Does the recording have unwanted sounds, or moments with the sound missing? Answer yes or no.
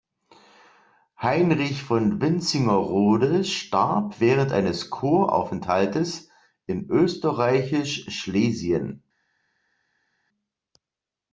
no